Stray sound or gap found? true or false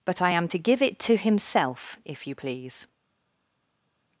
false